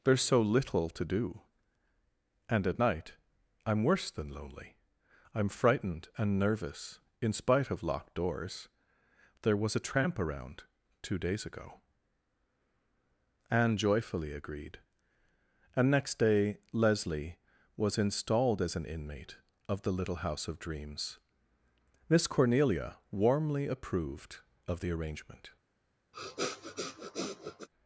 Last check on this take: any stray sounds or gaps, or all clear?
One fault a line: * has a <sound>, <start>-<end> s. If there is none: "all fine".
* has a sniff, 26.1-27.7 s